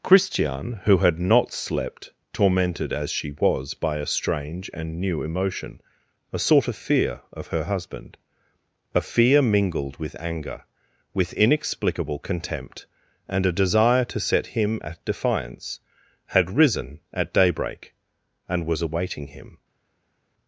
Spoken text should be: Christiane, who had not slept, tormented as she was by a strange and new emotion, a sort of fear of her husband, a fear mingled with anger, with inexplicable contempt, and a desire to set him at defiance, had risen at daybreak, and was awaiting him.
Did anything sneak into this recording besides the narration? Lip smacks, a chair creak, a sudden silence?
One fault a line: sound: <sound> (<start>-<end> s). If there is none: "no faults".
no faults